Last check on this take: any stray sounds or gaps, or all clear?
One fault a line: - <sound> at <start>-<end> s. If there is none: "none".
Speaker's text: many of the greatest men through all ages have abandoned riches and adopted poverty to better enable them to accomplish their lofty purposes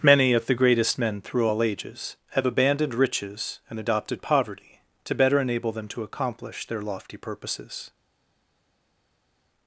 none